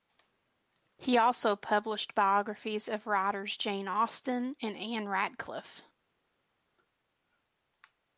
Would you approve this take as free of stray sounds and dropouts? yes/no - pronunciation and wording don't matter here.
yes